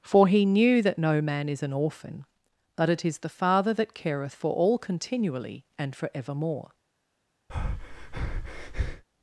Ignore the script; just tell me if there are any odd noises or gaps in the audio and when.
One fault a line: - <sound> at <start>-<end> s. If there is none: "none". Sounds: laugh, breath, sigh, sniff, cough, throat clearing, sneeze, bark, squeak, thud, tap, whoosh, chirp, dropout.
- breath at 7.5-9.0 s